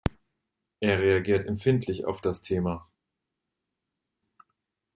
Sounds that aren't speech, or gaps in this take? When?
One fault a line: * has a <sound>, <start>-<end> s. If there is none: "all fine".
all fine